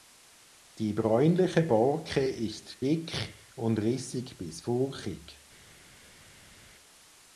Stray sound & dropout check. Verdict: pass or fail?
pass